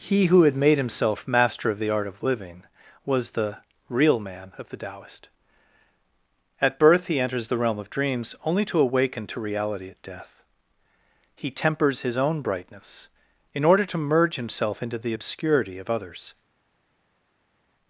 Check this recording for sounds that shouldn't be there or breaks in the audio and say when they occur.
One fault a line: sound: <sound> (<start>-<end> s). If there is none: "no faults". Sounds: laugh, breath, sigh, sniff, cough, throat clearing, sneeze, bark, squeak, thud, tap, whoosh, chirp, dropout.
no faults